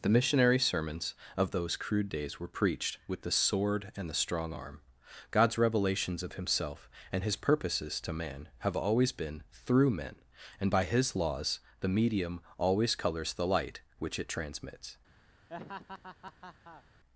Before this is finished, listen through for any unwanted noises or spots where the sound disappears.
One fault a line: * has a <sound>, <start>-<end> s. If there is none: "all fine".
* has a laugh, 15.5-16.8 s